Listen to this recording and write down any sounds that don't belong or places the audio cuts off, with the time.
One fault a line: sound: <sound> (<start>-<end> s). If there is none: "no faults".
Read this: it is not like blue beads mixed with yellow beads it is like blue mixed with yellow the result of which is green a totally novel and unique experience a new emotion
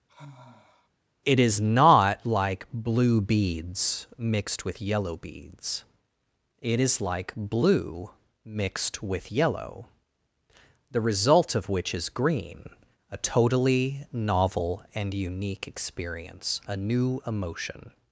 sound: sigh (0.1-0.9 s)